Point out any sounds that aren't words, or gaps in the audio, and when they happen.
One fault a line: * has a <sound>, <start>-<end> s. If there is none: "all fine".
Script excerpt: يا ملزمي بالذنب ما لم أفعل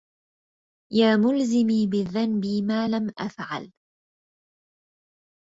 all fine